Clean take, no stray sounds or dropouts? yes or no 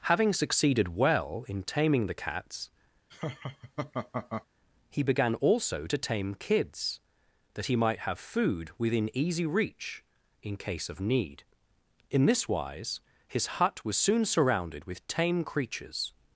no